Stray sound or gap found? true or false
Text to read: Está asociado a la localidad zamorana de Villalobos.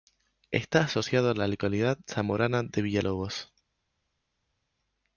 false